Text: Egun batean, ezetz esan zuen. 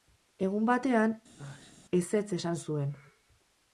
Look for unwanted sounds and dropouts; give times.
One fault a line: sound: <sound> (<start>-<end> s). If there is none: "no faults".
sound: sneeze (1.4-1.8 s)